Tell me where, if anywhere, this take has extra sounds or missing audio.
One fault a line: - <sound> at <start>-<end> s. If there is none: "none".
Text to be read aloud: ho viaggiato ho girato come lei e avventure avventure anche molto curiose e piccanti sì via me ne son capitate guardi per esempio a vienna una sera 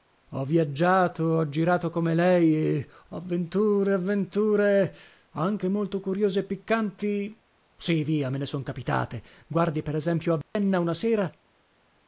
- dropout at 10.4-10.6 s